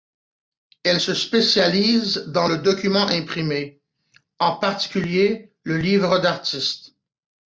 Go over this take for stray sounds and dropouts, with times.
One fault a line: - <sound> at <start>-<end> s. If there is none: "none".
none